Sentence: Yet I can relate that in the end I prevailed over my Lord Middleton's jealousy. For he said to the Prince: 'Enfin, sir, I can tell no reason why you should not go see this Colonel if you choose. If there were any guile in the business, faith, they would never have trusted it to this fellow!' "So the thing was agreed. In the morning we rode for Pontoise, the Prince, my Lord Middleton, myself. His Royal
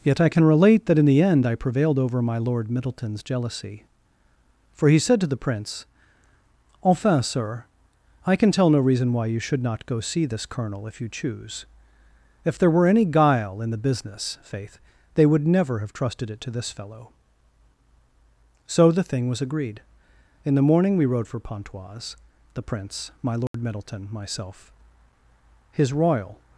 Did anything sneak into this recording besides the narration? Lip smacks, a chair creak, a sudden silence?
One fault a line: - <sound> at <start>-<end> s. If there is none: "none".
- dropout at 23.5-23.5 s